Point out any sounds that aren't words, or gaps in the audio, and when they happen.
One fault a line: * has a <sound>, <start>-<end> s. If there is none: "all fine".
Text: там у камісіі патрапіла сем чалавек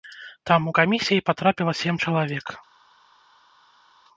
all fine